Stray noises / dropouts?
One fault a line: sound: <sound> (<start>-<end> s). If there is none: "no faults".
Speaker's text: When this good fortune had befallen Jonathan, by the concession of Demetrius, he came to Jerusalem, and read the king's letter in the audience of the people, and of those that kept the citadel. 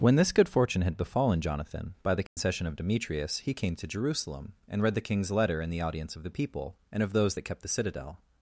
sound: dropout (2.3-2.4 s)